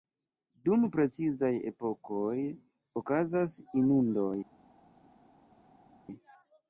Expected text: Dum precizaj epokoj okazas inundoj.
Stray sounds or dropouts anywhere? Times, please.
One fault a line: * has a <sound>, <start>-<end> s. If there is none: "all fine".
all fine